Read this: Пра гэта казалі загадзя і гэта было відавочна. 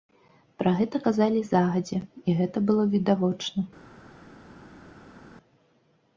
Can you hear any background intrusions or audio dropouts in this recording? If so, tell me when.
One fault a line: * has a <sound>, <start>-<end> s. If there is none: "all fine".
all fine